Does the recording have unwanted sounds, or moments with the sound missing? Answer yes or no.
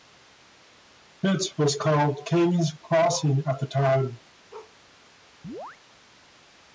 yes